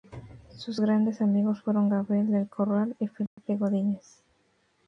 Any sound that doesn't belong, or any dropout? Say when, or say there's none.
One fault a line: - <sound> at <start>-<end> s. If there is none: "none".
- dropout at 3.3-3.4 s